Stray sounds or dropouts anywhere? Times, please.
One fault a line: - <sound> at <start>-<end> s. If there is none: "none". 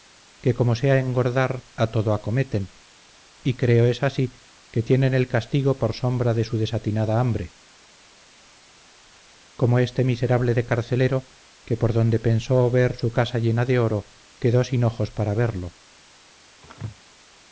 - sneeze at 16.6-17.0 s